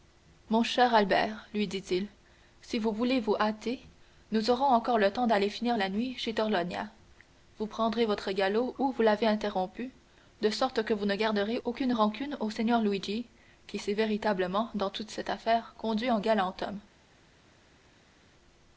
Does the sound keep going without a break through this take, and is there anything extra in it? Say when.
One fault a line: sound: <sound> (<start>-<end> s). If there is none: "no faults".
no faults